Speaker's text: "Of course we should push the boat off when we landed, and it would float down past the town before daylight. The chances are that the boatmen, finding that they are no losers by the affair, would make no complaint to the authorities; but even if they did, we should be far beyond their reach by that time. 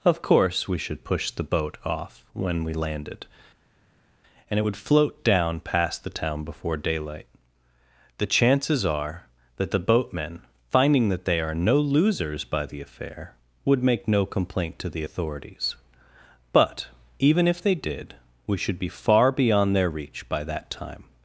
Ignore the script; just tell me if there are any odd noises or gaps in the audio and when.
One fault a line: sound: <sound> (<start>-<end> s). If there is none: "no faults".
no faults